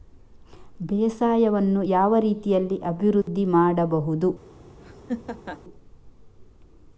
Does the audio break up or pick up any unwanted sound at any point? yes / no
yes